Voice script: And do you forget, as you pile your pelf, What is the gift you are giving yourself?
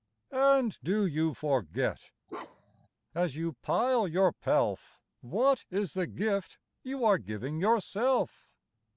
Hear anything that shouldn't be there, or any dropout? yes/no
yes